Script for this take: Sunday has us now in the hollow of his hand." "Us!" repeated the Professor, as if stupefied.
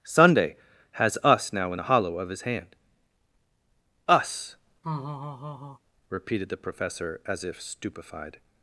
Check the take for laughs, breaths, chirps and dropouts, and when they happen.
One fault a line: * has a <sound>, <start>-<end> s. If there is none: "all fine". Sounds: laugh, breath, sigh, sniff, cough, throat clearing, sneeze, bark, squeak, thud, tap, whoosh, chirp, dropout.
* has a laugh, 4.8-5.8 s